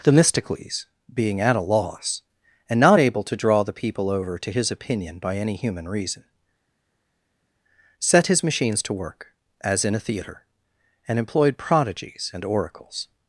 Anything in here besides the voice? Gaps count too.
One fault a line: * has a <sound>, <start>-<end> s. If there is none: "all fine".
all fine